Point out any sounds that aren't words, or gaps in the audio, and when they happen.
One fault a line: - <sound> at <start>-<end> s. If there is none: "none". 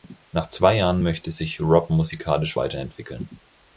none